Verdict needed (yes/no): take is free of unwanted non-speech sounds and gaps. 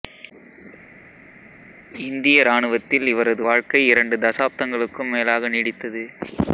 yes